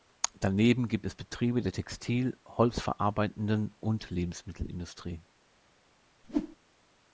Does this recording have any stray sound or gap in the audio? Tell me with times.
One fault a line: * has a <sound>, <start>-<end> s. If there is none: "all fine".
* has a whoosh, 6.2-6.6 s